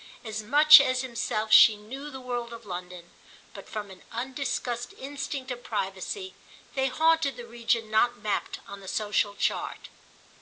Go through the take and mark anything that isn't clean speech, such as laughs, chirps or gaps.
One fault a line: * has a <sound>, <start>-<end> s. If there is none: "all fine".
all fine